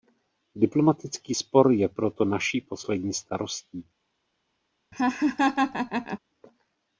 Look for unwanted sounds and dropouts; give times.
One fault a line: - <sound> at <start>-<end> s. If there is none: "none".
- laugh at 4.9-6.2 s